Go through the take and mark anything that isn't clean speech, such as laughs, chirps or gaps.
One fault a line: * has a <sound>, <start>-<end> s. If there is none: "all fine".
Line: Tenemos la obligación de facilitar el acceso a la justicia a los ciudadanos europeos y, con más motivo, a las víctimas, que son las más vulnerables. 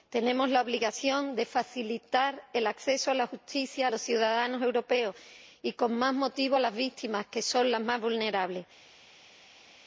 all fine